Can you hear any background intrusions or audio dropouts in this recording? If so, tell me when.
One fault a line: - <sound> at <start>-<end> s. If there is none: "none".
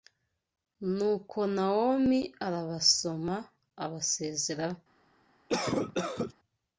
- cough at 5.5-6.3 s